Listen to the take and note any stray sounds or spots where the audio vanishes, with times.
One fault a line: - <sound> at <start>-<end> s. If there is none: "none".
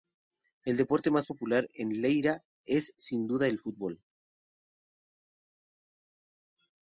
none